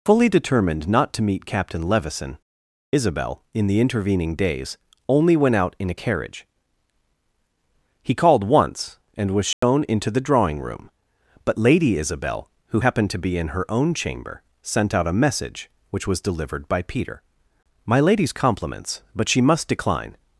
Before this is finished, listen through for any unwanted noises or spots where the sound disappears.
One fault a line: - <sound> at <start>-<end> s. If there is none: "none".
- dropout at 9.5-9.6 s